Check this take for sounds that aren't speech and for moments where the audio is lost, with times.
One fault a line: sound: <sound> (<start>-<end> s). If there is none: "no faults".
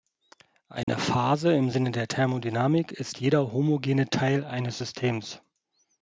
sound: dropout (0.8-0.9 s)